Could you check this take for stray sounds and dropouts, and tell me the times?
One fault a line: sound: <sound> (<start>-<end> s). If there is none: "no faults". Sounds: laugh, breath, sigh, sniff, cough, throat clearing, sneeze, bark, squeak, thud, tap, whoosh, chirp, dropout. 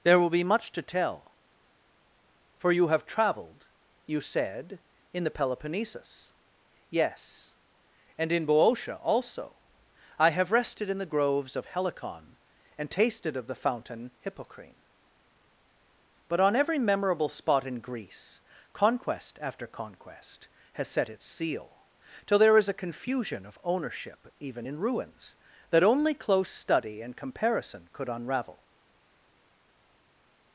no faults